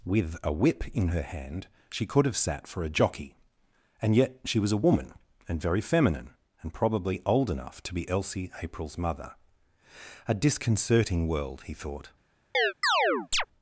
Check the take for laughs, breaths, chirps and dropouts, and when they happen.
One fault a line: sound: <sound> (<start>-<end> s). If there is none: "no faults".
sound: chirp (12.5-13.5 s)